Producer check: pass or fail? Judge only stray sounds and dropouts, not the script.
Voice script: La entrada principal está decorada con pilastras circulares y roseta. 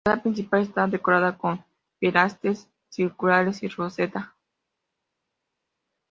pass